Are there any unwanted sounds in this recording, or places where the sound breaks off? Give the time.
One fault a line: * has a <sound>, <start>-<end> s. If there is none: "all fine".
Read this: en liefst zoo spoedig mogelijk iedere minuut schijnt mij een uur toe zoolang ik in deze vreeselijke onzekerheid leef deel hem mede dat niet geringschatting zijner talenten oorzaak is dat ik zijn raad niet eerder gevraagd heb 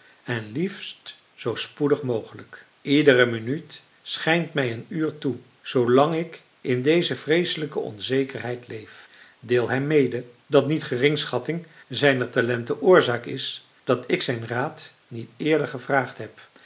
all fine